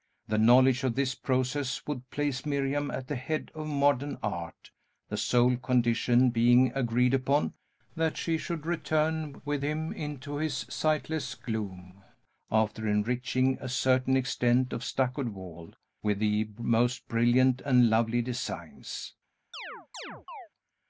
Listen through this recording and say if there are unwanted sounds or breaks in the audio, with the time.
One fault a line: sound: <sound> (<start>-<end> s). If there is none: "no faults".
sound: chirp (19.5-20.5 s)